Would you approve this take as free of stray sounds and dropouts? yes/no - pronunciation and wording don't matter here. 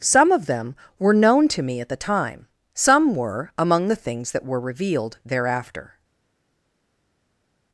yes